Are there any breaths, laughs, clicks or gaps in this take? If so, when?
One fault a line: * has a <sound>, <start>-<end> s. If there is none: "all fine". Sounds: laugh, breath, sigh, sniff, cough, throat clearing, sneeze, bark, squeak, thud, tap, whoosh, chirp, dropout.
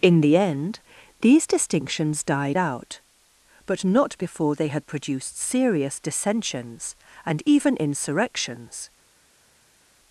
all fine